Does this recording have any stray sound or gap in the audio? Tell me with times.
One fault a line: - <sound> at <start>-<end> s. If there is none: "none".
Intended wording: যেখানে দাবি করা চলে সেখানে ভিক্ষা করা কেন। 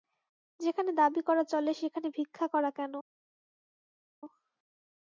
none